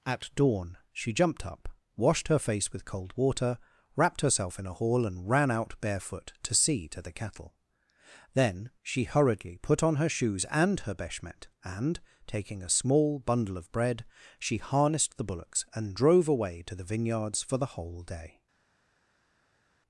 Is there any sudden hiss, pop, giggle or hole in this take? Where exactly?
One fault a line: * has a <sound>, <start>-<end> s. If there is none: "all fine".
all fine